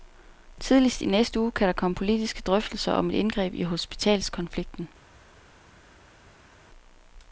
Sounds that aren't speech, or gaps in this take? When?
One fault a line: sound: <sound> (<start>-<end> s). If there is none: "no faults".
no faults